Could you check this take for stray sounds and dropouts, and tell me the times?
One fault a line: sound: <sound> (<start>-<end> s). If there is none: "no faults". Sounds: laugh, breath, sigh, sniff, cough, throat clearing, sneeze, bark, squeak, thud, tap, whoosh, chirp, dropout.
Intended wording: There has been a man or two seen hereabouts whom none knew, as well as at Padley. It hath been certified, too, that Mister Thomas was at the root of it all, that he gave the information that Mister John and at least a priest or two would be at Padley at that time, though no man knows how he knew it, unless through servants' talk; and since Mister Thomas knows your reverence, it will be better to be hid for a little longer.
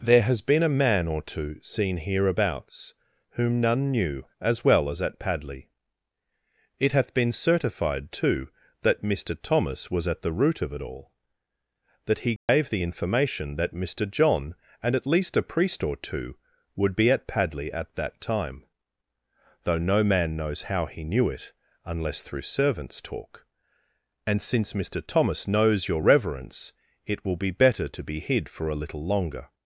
sound: dropout (12.4-12.5 s)